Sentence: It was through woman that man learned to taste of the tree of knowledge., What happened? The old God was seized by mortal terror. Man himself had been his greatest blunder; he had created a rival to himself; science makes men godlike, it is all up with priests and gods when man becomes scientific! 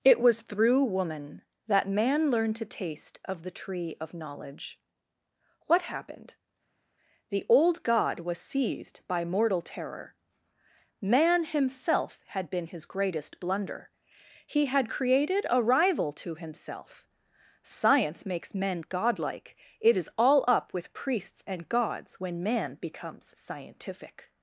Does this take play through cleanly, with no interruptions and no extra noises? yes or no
yes